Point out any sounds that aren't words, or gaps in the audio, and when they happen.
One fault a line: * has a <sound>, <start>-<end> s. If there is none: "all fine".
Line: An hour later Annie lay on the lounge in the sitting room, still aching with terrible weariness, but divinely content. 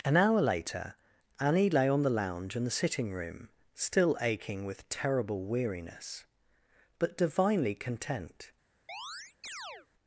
* has a chirp, 8.9-9.9 s